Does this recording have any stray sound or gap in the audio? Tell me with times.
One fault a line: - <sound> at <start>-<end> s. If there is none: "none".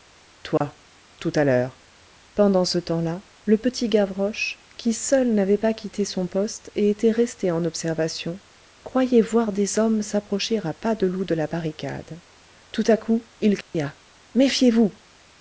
- dropout at 0.6-0.6 s
- dropout at 13.6-13.7 s